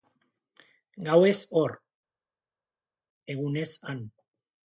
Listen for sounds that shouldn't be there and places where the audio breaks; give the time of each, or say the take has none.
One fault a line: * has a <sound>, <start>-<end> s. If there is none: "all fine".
all fine